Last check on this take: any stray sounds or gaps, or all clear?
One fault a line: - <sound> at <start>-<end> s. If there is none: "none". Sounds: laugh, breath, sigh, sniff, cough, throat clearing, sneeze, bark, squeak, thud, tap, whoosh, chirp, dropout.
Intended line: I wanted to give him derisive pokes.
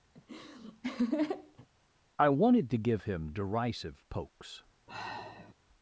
- laugh at 0.2-1.7 s
- sigh at 4.9-5.5 s